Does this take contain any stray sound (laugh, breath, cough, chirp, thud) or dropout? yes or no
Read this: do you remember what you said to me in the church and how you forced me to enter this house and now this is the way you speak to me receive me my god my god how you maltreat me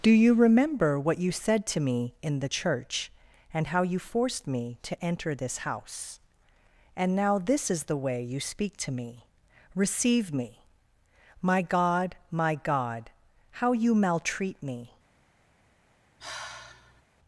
yes